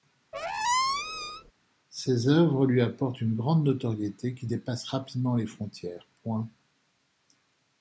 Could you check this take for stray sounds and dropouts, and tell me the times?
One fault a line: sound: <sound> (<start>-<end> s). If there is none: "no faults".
sound: squeak (0.3-1.5 s)